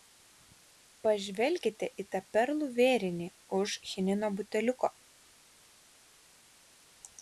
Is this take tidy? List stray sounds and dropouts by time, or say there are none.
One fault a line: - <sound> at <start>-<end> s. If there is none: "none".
none